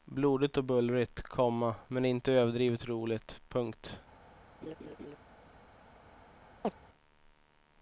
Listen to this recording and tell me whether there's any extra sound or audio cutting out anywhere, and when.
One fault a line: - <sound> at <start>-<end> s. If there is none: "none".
- laugh at 4.6-5.2 s
- chirp at 6.6-6.7 s